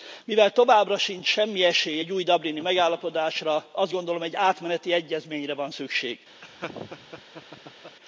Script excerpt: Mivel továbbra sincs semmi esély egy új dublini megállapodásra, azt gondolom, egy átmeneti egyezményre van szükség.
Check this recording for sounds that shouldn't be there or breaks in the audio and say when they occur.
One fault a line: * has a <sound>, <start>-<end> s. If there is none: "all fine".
* has a laugh, 6.4-8.0 s